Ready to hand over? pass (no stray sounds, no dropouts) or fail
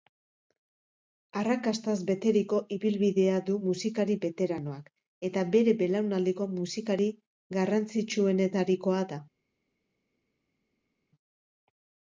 pass